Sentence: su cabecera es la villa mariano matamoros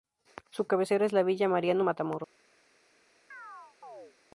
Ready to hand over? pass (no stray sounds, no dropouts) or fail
fail